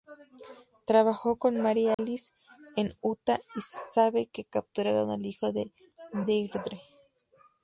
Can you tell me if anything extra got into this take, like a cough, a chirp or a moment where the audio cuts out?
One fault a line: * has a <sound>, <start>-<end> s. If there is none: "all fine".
* has a dropout, 1.9-2.0 s